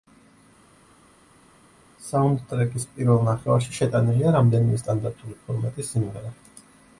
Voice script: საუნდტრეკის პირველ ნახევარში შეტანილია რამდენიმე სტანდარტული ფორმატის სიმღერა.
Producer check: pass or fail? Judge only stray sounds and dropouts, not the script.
pass